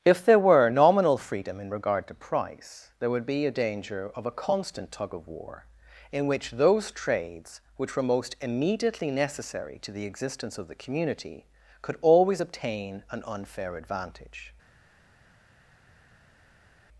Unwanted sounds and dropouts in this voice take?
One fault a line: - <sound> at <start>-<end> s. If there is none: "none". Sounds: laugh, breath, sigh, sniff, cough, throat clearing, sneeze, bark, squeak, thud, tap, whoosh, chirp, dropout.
none